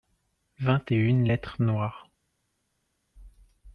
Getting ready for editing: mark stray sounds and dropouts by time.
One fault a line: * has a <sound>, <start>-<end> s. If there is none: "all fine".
all fine